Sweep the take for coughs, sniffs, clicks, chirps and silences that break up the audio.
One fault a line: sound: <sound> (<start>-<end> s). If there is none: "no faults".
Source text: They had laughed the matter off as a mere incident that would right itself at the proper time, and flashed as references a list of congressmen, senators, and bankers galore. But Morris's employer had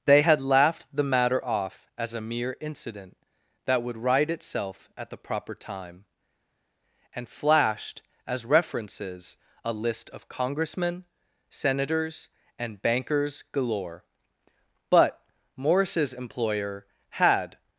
no faults